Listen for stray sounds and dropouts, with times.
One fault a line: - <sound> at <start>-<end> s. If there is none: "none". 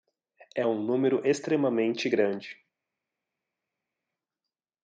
none